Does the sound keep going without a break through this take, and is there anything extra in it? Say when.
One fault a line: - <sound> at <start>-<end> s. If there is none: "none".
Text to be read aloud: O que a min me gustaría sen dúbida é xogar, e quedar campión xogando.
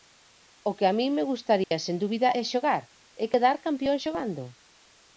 - dropout at 1.6-1.7 s